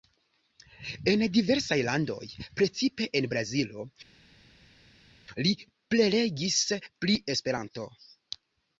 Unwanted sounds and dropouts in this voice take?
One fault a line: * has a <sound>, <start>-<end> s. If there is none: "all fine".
all fine